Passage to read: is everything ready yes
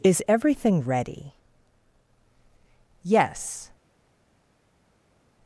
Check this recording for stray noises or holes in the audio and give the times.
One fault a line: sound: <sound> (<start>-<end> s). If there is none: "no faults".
no faults